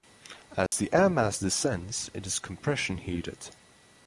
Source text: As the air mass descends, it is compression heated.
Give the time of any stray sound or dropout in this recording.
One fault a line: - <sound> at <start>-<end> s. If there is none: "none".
- dropout at 0.7-0.7 s